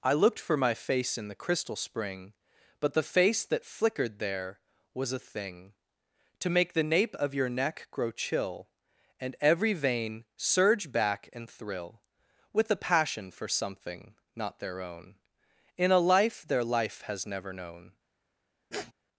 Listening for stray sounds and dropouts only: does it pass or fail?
fail